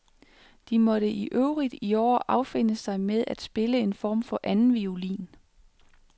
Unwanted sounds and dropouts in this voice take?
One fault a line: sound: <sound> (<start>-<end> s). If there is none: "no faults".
no faults